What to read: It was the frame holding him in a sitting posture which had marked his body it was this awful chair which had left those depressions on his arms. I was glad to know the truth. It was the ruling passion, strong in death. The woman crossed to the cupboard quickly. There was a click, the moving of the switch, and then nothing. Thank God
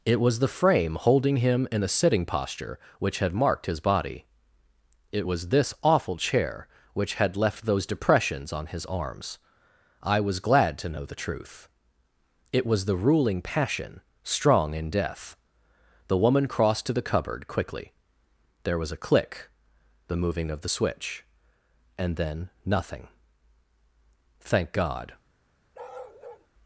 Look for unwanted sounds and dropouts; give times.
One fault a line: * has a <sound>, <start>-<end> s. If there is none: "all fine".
* has a bark, 25.7-26.5 s